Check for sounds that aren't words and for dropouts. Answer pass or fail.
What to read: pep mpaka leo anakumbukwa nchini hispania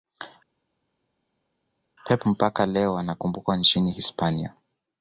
pass